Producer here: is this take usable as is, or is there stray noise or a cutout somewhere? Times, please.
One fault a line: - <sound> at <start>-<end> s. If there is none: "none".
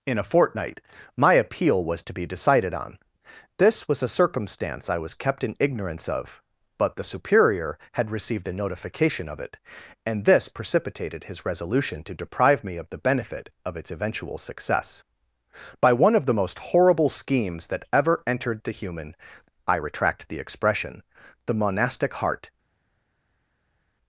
none